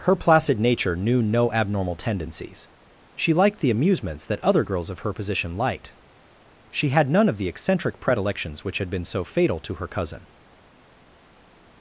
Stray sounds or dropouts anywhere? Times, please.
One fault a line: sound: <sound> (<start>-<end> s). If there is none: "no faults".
no faults